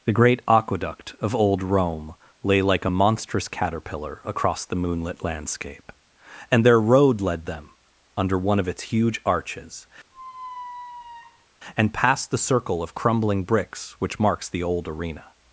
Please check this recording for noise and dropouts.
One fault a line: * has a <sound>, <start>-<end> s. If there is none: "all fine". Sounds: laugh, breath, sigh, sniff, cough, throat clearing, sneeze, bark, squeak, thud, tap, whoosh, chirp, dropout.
* has a squeak, 10.1-11.5 s